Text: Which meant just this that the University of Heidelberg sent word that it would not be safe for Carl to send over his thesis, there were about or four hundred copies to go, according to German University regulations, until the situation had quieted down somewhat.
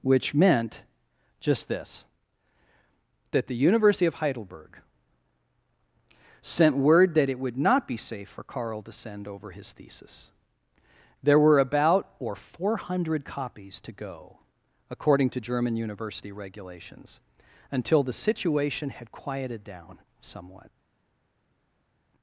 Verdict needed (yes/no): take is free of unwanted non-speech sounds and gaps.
yes